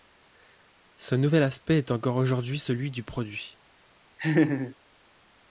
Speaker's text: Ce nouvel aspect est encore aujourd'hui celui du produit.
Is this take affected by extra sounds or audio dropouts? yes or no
yes